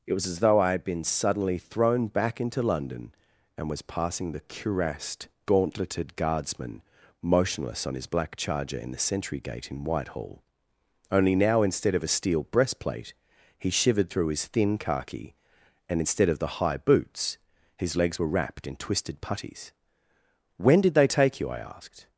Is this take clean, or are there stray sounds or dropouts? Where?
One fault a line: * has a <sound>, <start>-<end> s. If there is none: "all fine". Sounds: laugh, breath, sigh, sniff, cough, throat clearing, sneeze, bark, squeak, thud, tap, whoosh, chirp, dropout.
all fine